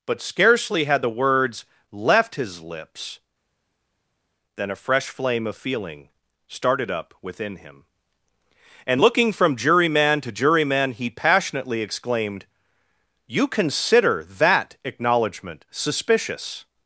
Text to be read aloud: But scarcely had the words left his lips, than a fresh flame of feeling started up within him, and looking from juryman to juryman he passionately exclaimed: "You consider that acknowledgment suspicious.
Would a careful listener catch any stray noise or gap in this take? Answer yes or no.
no